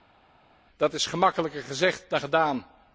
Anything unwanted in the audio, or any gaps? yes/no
no